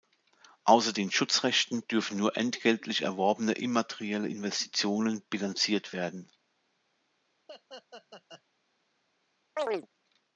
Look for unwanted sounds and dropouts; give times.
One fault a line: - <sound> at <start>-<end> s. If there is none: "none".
- laugh at 7.5-8.4 s
- chirp at 9.6-9.9 s